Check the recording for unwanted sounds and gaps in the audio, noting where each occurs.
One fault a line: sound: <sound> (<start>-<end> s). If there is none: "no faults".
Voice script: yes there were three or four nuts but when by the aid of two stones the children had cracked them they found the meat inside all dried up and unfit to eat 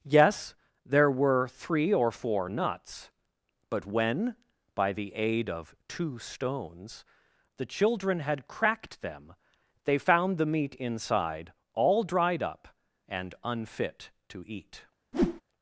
sound: whoosh (15.1-15.4 s)